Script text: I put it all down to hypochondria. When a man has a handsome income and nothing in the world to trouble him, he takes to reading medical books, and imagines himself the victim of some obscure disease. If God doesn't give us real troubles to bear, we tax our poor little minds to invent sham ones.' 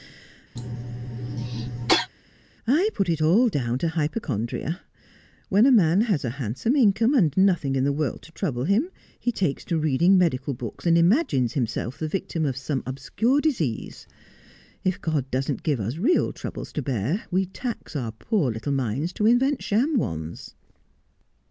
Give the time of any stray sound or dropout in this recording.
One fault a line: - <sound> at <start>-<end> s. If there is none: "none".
- cough at 0.6-2.1 s